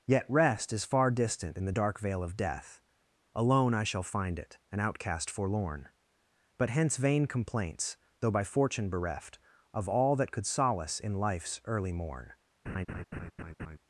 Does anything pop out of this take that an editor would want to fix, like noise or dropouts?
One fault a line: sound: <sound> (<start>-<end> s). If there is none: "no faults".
sound: laugh (12.7-13.8 s)